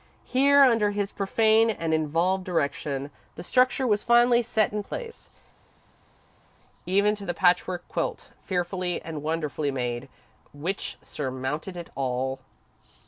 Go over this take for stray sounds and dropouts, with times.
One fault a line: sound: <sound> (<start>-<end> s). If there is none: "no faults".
no faults